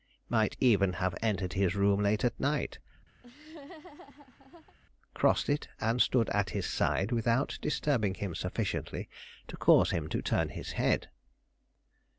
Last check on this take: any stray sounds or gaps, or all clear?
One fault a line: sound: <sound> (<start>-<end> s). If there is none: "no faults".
sound: laugh (3.2-4.8 s)